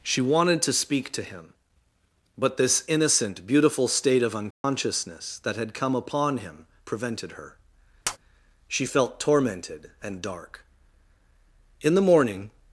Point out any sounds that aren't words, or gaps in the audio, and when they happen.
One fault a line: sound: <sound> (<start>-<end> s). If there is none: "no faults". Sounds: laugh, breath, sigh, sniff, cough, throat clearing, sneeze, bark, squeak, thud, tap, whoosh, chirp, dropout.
sound: dropout (4.5-4.6 s)
sound: tap (8.0-8.2 s)